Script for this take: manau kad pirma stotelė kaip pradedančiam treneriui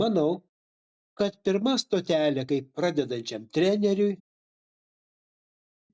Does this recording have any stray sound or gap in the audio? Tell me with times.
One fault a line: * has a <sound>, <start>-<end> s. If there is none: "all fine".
all fine